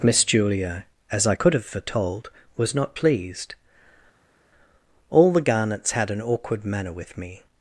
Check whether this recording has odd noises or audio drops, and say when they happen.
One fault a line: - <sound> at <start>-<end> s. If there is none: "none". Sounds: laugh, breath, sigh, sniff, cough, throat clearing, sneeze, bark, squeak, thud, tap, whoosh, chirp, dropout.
none